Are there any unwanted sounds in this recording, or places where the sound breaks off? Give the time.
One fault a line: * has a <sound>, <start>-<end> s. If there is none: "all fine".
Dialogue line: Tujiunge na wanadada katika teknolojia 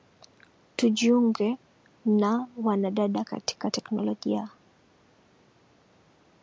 all fine